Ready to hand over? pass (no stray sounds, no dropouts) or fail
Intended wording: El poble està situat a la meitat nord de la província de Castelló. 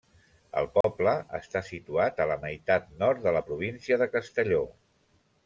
fail